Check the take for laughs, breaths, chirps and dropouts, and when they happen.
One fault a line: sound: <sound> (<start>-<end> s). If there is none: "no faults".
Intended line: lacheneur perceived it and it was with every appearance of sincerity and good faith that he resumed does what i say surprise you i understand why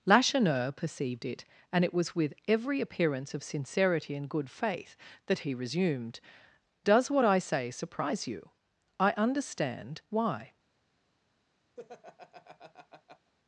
sound: laugh (11.8-13.3 s)